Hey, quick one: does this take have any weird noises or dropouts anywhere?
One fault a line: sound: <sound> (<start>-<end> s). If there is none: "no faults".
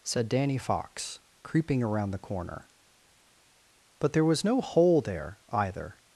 no faults